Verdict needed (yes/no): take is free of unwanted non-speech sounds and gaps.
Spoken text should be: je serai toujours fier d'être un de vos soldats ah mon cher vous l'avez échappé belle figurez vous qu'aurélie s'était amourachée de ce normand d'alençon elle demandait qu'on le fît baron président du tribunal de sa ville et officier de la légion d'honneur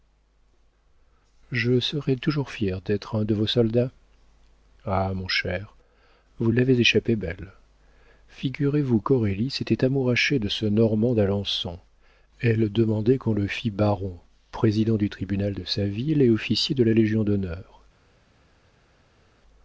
yes